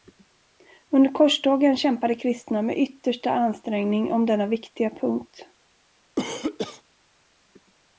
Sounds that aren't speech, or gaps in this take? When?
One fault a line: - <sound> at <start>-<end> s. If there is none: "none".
- cough at 6.2-6.8 s